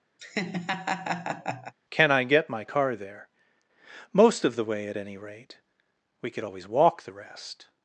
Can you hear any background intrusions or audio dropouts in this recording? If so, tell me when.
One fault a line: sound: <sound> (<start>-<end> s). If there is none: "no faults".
sound: laugh (0.2-1.7 s)